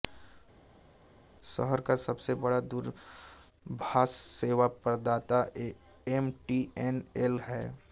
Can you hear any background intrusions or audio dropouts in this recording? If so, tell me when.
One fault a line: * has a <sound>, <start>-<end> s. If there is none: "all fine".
all fine